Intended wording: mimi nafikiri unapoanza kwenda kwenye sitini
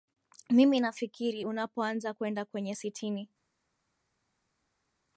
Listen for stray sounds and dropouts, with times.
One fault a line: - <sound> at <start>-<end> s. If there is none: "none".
none